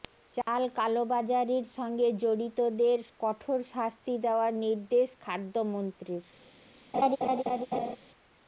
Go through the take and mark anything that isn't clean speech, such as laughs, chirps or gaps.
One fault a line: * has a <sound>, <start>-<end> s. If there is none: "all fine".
* has a dropout, 0.4-0.5 s
* has a laugh, 6.9-8.0 s